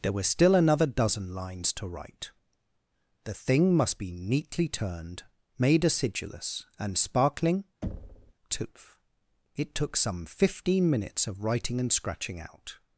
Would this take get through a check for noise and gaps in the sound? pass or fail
fail